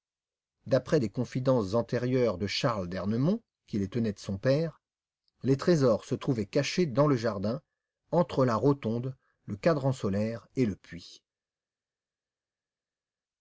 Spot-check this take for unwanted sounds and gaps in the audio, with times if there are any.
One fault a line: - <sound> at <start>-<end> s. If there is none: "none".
none